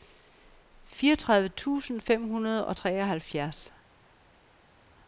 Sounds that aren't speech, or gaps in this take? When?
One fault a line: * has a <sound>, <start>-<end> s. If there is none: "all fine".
all fine